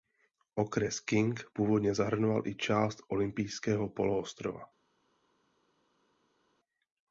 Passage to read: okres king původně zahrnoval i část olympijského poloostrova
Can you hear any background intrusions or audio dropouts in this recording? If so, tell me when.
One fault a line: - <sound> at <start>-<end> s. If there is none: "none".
none